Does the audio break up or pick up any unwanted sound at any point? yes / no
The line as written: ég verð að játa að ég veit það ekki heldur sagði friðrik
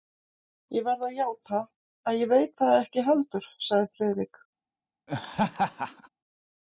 yes